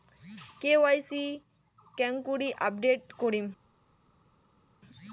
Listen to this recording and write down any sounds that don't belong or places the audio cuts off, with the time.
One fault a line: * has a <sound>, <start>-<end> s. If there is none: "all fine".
all fine